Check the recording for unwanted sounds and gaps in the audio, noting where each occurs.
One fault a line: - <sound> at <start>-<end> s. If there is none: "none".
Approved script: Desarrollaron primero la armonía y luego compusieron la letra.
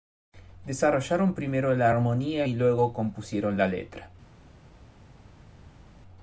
none